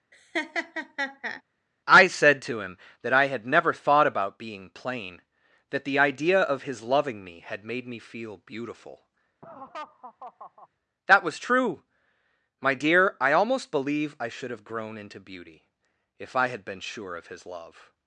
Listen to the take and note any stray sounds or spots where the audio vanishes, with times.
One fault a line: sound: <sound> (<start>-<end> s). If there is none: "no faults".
sound: laugh (0.1-1.4 s)
sound: laugh (9.4-10.7 s)